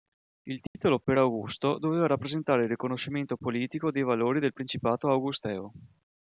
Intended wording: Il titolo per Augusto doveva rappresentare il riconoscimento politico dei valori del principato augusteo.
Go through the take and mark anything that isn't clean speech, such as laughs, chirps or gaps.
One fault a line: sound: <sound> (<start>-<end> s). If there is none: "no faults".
sound: dropout (0.7-0.8 s)